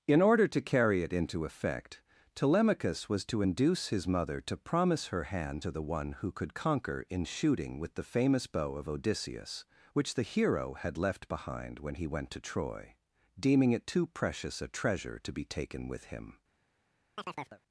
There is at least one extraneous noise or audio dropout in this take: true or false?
true